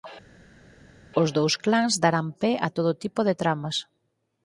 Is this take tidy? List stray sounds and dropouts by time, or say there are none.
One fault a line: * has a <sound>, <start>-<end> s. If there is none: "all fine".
all fine